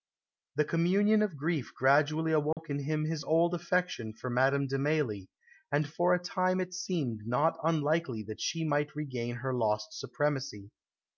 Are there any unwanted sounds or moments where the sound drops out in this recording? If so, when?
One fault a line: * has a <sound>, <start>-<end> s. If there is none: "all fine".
* has a dropout, 2.5-2.6 s